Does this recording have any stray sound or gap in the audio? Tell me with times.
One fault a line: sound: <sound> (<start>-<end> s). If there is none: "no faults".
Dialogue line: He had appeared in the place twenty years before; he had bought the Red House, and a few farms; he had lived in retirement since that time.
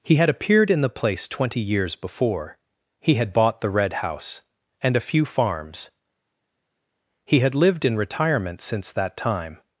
no faults